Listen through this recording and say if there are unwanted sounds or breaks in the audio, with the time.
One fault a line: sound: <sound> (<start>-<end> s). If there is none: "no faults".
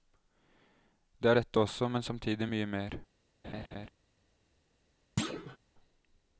sound: laugh (3.4-3.9 s)
sound: thud (5.2-5.6 s)